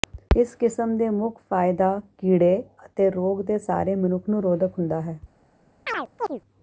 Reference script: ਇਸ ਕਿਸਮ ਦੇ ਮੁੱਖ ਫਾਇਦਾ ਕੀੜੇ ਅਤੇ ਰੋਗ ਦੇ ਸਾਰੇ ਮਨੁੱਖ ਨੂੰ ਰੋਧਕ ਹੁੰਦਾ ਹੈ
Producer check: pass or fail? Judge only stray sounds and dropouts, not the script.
fail